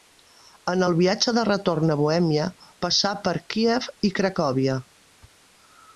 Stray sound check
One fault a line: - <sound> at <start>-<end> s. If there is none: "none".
none